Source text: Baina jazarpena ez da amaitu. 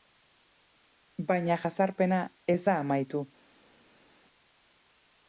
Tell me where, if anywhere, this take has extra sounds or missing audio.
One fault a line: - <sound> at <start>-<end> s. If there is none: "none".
none